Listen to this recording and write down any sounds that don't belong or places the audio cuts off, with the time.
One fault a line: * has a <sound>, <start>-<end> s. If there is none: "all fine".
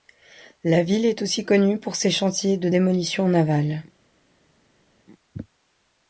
all fine